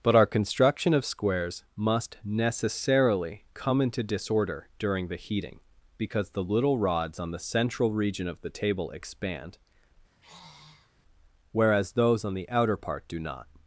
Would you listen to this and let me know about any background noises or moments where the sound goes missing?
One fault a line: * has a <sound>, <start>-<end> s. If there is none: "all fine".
* has a sigh, 10.1-10.9 s